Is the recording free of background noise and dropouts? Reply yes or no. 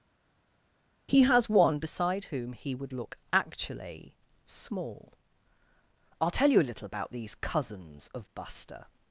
yes